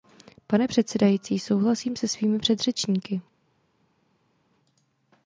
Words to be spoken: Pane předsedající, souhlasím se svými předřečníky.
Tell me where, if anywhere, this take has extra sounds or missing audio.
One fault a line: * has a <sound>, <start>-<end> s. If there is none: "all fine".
all fine